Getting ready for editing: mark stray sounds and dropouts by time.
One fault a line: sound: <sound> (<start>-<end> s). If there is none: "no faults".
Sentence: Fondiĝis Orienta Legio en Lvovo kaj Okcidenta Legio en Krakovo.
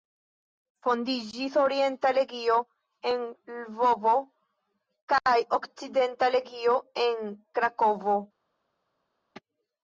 no faults